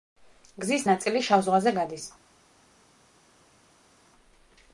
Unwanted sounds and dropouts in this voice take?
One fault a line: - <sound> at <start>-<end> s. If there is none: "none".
none